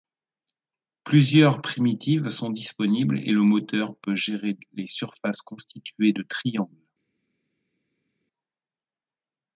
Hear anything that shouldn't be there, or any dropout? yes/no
no